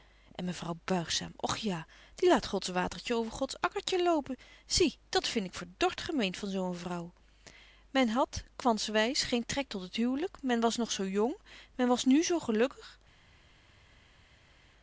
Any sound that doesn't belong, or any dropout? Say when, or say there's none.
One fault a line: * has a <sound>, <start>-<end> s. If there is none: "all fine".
all fine